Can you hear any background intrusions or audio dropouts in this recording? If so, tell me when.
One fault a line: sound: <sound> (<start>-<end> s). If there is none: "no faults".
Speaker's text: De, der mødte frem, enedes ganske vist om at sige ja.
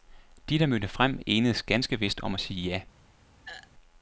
sound: throat clearing (3.5-3.7 s)